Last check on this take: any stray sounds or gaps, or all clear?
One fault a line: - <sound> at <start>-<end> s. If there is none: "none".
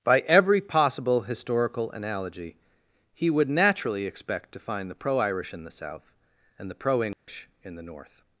- dropout at 7.1-7.3 s